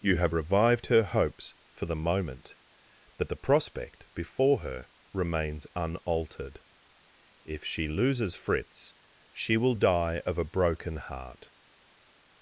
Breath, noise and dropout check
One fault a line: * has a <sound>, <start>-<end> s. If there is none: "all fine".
all fine